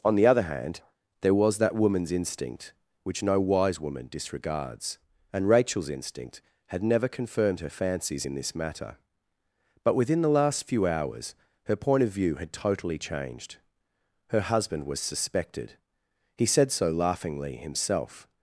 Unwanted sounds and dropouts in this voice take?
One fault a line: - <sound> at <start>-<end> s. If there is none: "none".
none